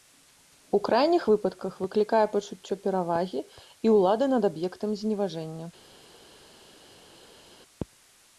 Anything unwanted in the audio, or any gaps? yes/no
no